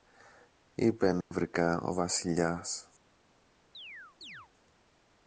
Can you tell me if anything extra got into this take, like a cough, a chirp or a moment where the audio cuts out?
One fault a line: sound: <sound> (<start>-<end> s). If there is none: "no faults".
sound: dropout (1.2-1.3 s)
sound: chirp (3.7-4.5 s)